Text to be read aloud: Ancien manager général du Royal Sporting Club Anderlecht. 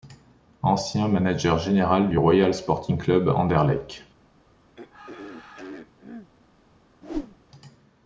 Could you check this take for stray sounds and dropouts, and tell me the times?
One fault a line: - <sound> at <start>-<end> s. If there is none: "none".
- throat clearing at 4.7-6.3 s
- whoosh at 7.0-7.4 s